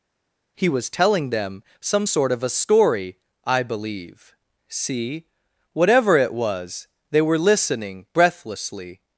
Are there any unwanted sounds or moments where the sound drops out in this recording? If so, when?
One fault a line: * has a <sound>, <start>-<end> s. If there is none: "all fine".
all fine